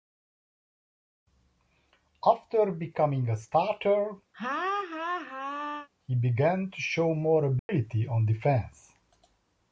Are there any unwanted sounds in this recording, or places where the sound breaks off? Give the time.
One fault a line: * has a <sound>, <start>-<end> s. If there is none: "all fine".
* has a laugh, 4.3-5.9 s
* has a dropout, 7.6-7.7 s